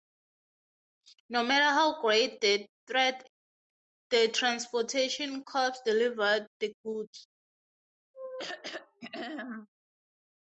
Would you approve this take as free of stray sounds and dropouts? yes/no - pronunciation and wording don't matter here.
no